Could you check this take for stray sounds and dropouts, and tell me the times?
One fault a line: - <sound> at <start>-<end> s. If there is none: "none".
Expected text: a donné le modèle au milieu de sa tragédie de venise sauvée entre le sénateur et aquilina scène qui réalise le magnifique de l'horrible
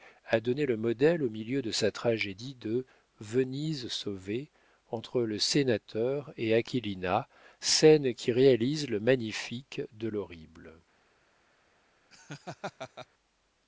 - laugh at 12.1-13.1 s